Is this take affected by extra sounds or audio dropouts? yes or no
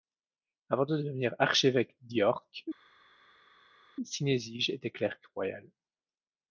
no